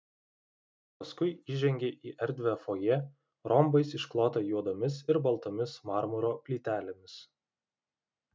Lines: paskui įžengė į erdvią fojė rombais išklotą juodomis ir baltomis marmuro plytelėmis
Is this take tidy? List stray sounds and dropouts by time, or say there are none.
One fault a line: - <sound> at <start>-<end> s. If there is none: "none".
none